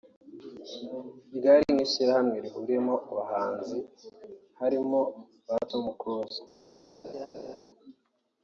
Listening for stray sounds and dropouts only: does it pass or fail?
fail